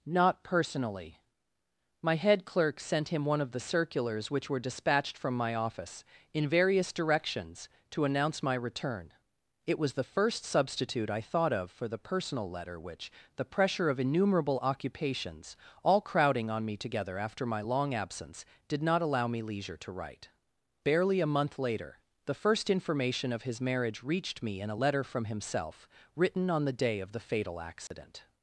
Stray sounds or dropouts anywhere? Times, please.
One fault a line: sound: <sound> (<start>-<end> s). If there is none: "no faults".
sound: dropout (27.9-27.9 s)